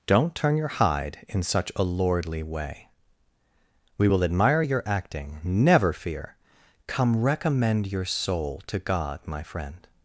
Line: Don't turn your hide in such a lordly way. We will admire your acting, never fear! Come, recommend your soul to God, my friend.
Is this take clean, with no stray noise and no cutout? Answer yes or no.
yes